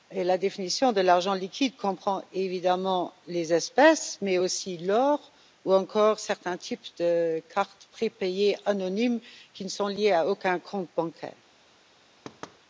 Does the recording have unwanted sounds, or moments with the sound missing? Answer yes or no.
yes